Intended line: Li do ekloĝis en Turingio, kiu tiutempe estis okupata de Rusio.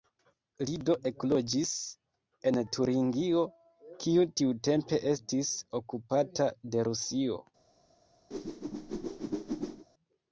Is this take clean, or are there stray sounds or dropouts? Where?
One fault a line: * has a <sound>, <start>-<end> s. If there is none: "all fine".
* has a whoosh, 8.3-9.9 s